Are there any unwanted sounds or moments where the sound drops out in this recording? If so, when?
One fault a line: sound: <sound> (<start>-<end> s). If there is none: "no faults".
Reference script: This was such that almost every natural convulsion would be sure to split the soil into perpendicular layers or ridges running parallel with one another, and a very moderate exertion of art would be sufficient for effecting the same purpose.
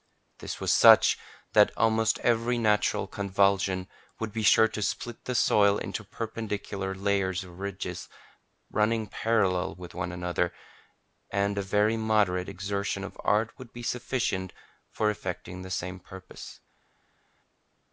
no faults